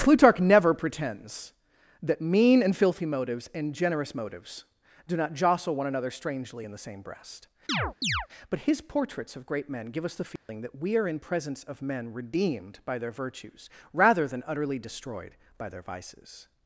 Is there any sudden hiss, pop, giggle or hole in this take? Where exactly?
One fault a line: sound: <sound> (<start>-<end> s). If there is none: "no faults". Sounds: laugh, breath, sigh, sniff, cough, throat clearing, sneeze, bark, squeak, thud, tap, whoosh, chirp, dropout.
sound: chirp (7.7-8.3 s)
sound: dropout (10.4-10.5 s)